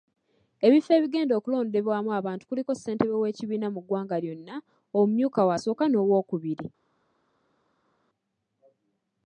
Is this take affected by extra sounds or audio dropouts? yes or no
no